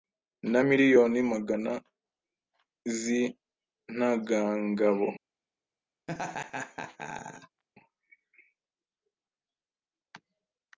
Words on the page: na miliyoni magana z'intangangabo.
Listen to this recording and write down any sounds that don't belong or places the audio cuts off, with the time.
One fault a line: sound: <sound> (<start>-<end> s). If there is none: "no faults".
sound: laugh (6.1-7.6 s)